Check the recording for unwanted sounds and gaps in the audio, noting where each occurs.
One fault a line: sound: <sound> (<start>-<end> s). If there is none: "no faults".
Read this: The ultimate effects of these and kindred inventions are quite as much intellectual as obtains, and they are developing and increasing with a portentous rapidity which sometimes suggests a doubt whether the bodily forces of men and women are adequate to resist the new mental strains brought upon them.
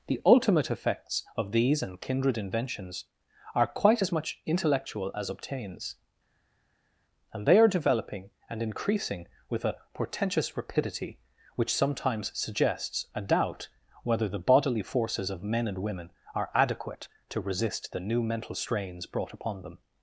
no faults